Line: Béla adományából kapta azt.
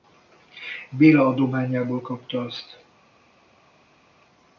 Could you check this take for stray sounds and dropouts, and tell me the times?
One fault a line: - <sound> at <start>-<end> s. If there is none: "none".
none